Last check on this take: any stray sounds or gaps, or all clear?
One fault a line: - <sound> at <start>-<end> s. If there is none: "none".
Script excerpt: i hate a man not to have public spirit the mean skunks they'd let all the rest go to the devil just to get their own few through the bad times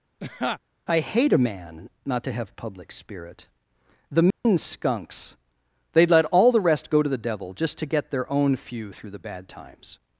- laugh at 0.2-0.6 s
- dropout at 4.3-4.5 s